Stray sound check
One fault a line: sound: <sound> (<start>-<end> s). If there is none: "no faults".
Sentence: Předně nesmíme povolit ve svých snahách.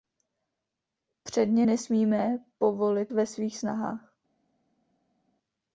no faults